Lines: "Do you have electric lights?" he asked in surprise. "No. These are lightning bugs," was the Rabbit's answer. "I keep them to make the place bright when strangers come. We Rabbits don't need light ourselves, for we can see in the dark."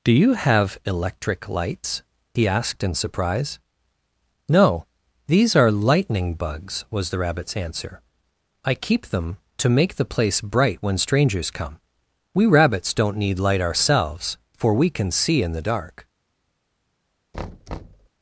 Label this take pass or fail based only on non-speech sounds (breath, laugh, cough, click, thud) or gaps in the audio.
fail